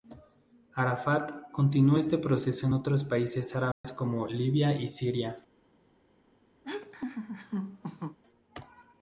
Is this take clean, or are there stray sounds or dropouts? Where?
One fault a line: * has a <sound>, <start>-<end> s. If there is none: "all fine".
* has a dropout, 3.7-3.8 s
* has a laugh, 6.6-8.2 s